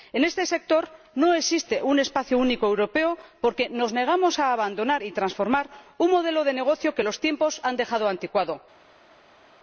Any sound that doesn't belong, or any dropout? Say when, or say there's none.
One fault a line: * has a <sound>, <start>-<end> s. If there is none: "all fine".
all fine